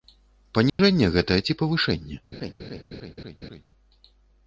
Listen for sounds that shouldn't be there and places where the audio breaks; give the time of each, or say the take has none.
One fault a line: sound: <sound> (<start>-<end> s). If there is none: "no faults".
sound: dropout (0.7-0.8 s)
sound: laugh (2.3-3.6 s)